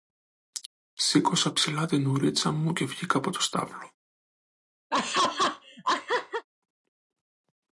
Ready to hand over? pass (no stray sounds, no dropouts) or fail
fail